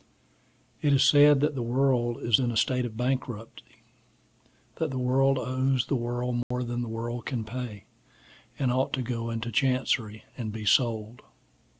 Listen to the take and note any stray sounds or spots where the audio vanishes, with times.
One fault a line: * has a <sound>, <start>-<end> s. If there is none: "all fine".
* has a dropout, 6.4-6.5 s